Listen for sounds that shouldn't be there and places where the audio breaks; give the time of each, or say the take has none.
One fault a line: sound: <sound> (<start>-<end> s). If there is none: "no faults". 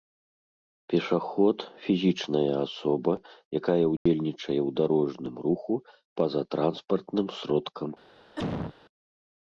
sound: dropout (4.0-4.1 s)
sound: cough (8.4-8.7 s)